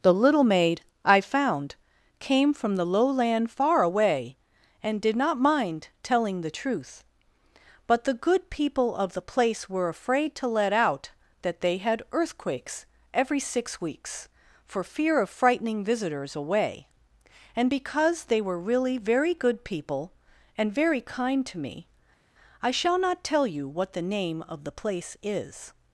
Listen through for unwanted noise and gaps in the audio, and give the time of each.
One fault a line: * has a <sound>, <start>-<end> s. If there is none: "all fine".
all fine